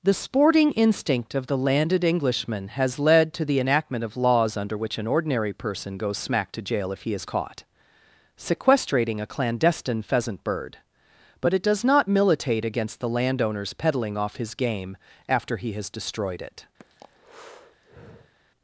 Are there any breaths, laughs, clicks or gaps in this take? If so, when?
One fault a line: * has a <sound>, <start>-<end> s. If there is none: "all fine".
* has a breath, 16.8-18.3 s